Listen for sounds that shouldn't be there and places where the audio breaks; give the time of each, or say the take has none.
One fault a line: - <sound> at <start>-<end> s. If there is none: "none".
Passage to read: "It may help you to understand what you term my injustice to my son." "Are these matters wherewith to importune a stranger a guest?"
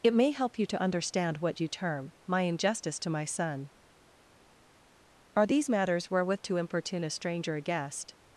none